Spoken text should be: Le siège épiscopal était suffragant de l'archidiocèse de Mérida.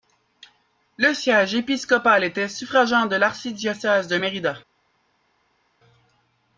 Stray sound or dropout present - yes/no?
no